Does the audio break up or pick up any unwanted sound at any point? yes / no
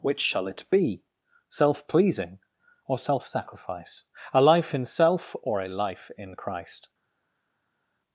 no